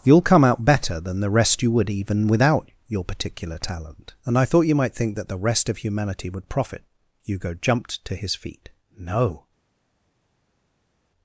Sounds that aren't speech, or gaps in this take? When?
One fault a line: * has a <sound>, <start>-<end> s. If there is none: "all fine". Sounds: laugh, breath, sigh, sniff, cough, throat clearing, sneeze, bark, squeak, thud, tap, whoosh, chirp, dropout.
all fine